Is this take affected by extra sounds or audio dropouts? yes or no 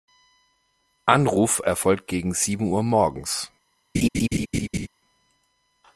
yes